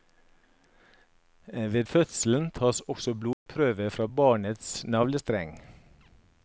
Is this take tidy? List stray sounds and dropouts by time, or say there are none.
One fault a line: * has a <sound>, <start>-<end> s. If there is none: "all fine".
* has a dropout, 3.3-3.5 s